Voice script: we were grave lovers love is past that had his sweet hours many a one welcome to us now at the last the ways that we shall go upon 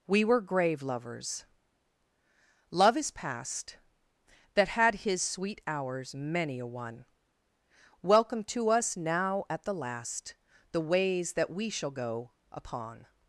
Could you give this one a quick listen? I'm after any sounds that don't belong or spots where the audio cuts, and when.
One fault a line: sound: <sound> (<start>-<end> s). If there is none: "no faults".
no faults